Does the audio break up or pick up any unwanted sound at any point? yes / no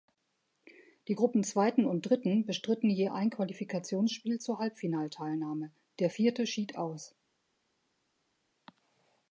no